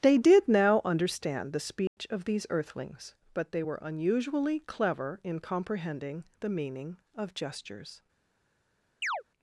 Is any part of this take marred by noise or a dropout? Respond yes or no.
yes